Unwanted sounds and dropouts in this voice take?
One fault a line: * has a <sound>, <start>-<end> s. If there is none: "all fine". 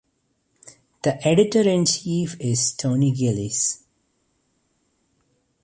all fine